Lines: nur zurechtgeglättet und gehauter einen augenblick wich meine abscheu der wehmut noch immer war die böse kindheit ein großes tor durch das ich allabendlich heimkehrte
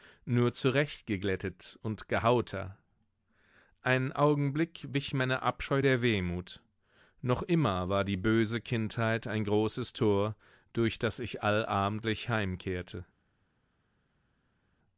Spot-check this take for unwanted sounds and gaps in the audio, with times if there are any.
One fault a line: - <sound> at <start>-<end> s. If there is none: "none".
none